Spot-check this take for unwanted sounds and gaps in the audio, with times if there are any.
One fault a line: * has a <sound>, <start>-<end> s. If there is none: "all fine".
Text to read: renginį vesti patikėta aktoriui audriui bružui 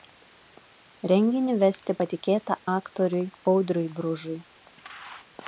all fine